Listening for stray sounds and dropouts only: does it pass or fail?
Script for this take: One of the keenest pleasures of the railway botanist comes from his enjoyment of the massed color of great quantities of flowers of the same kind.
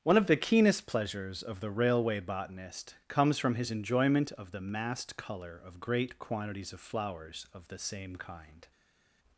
pass